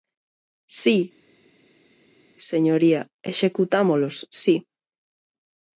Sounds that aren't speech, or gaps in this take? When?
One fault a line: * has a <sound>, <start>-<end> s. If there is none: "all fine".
all fine